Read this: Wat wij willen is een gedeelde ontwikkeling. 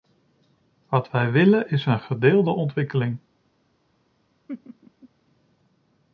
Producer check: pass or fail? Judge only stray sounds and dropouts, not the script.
fail